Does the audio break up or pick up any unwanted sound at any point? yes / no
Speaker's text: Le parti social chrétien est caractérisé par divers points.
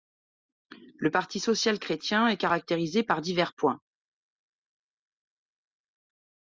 no